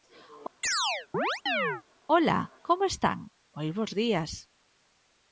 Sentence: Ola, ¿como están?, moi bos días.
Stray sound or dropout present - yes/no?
yes